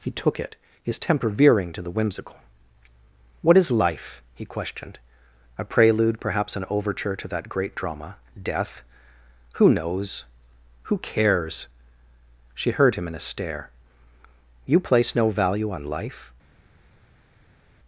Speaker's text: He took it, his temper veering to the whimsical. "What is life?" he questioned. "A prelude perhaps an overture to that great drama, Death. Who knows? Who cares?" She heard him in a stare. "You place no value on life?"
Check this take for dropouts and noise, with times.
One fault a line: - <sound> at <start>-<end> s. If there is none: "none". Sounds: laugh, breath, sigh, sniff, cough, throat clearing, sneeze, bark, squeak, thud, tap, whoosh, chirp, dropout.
none